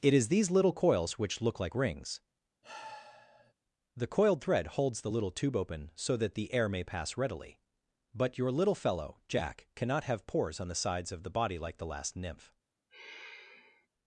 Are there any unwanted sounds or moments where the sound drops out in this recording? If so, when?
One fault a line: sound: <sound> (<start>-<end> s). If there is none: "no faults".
sound: sigh (2.6-3.5 s)
sound: sigh (12.9-13.9 s)